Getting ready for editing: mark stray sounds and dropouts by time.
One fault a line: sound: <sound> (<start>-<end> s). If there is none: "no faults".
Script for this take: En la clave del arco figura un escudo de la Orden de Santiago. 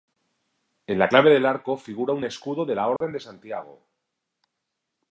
sound: dropout (3.0-3.0 s)